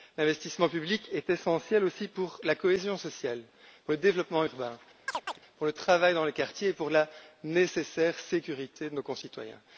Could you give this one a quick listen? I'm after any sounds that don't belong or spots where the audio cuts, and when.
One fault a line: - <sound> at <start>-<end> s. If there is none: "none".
- chirp at 5.1-5.4 s